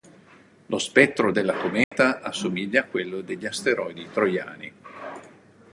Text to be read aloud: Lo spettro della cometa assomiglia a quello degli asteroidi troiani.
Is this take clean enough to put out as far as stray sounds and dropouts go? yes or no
no